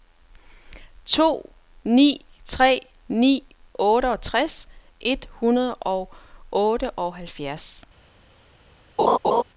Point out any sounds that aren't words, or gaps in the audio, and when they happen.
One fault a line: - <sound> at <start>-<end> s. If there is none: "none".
- laugh at 9.0-9.4 s